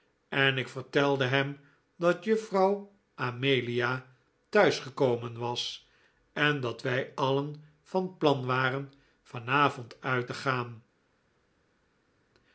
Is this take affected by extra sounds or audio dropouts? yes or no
no